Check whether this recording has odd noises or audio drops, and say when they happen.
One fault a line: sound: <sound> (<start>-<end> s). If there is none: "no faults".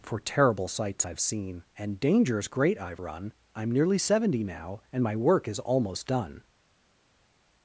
no faults